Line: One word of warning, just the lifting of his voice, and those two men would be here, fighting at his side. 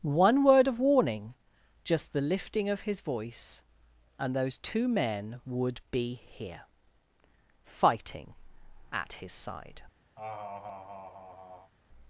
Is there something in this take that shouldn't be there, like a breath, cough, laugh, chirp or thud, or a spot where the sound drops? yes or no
yes